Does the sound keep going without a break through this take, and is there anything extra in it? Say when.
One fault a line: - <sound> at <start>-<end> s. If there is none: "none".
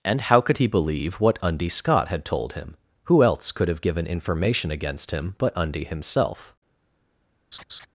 - laugh at 7.5-7.9 s